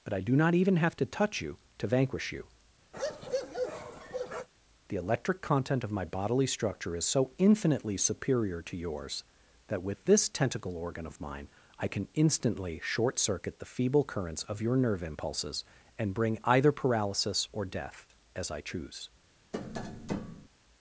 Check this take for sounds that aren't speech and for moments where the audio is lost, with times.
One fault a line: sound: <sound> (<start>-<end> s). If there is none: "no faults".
sound: bark (2.9-4.5 s)
sound: tap (19.5-20.5 s)